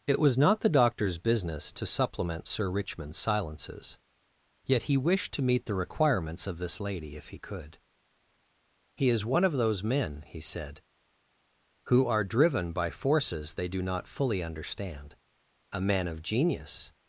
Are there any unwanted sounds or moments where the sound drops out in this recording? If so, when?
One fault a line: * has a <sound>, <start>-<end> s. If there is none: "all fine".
all fine